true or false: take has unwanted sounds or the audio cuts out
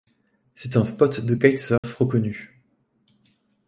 true